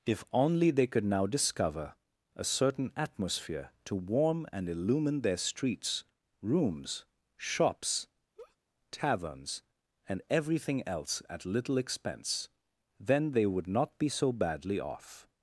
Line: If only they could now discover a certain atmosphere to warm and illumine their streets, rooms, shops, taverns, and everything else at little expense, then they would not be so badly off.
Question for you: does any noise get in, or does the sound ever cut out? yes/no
yes